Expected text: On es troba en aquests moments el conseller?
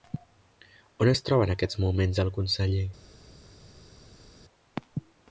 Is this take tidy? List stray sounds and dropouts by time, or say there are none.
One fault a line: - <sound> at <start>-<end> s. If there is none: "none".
none